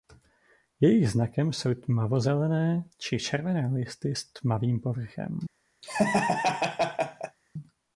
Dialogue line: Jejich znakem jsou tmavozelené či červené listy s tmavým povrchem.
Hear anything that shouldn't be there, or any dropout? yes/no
yes